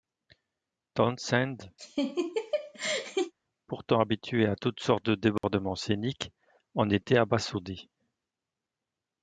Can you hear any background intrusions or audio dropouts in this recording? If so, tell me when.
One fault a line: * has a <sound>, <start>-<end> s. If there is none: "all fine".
* has a laugh, 1.8-3.3 s
* has a dropout, 5.4-5.4 s